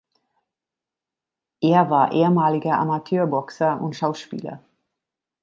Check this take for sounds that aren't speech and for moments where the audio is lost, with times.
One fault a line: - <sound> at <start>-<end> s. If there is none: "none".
none